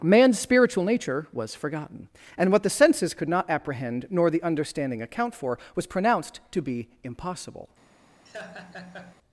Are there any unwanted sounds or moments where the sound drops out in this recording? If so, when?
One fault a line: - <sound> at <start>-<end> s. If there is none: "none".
- laugh at 8.3-9.2 s